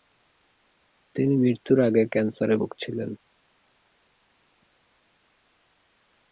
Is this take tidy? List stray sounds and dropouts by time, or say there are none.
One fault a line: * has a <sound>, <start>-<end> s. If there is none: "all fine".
all fine